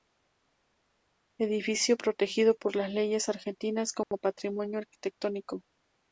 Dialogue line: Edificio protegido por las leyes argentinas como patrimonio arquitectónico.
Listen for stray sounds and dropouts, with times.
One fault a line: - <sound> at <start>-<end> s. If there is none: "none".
- dropout at 4.0-4.1 s